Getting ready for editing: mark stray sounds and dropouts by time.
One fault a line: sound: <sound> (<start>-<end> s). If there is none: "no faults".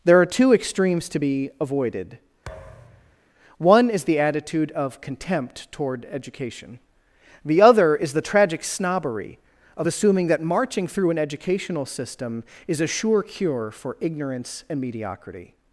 sound: thud (2.5-3.2 s)